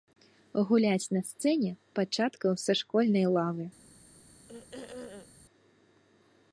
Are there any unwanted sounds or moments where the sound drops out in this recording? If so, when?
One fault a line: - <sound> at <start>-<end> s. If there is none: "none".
- throat clearing at 4.5-5.3 s